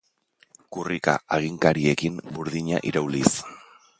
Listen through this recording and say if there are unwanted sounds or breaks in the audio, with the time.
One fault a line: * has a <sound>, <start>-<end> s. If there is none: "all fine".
all fine